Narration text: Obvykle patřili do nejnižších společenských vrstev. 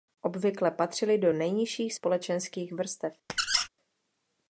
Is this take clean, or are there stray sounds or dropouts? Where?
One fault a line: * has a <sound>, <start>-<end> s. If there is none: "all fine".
* has a squeak, 3.3-3.7 s